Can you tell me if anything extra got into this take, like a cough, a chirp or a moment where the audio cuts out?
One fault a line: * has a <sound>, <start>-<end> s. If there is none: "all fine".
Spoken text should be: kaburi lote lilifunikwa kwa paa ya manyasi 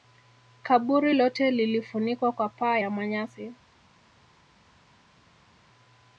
all fine